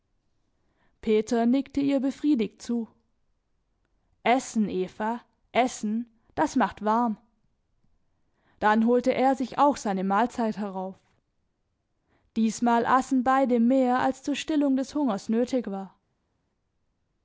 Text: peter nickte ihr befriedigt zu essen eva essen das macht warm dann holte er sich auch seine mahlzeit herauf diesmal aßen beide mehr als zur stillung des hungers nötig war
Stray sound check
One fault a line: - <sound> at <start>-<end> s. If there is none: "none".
none